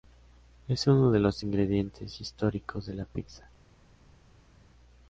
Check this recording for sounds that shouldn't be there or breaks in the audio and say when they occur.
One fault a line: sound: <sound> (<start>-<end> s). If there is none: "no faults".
no faults